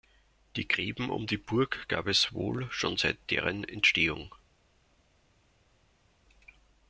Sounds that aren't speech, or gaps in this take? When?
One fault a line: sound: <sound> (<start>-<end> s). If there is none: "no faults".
no faults